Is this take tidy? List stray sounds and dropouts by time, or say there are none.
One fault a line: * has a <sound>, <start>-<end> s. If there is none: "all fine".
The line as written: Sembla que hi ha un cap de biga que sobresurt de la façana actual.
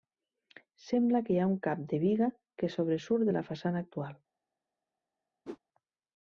* has a whoosh, 5.5-5.6 s